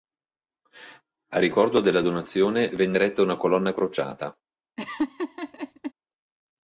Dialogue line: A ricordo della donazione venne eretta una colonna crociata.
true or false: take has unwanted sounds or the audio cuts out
true